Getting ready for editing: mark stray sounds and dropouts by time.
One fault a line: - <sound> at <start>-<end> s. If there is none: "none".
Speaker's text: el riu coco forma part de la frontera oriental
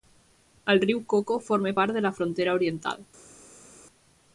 none